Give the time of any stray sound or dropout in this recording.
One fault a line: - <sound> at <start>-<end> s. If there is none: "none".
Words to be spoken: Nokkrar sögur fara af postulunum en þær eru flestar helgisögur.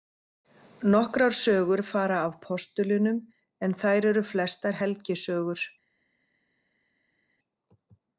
none